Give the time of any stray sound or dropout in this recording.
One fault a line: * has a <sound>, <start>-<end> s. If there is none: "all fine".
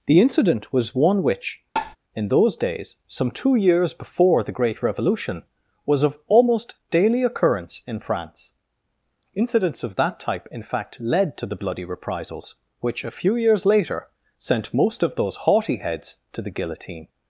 * has a tap, 1.8-2.0 s